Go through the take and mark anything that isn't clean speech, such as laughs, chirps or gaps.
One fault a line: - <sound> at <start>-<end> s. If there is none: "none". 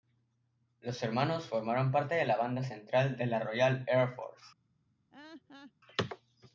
- laugh at 5.1-5.7 s